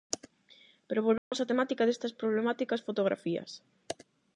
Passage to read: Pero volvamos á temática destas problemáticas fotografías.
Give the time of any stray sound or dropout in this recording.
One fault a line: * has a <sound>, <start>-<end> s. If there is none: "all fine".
* has a dropout, 1.2-1.3 s